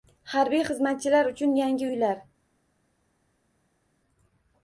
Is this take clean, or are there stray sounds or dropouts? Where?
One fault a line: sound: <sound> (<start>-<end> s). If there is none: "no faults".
no faults